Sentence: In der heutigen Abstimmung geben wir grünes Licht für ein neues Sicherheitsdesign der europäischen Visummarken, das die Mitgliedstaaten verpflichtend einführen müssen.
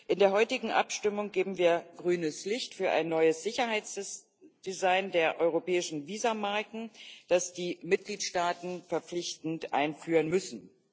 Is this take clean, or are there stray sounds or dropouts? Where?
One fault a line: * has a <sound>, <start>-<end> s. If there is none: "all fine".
all fine